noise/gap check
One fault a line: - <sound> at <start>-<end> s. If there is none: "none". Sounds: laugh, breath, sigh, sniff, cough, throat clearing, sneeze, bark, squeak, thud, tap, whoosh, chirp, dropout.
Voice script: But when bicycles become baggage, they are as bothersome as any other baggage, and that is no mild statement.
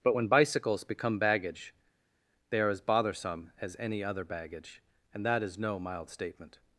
none